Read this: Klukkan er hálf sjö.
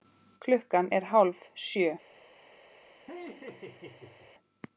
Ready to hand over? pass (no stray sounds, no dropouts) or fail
fail